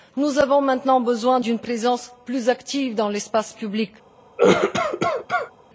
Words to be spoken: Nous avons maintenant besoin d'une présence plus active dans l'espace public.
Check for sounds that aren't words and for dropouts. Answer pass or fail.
fail